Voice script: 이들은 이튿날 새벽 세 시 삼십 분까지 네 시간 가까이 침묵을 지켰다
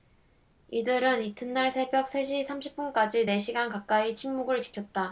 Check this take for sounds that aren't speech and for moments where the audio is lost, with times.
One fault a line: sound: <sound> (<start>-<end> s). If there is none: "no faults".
no faults